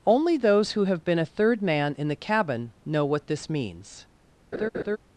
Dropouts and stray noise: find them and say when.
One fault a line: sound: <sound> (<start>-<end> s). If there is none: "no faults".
sound: laugh (4.5-5.0 s)